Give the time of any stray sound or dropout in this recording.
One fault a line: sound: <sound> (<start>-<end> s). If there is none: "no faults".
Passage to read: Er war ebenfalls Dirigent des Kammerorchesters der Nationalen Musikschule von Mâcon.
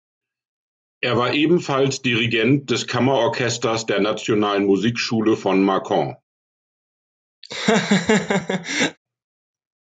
sound: laugh (7.4-9.0 s)